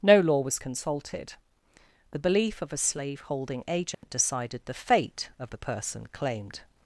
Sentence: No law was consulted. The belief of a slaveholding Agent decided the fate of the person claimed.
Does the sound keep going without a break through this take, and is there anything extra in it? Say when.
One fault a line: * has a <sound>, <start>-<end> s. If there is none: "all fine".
* has a dropout, 3.9-4.0 s